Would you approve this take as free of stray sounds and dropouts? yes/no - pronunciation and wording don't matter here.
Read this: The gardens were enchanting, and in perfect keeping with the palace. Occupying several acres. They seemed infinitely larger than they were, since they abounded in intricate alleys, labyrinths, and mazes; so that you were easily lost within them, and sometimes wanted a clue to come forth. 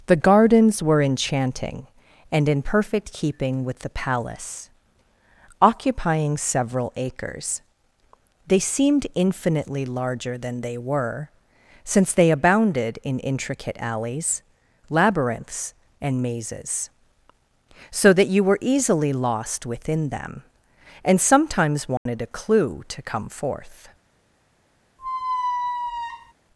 no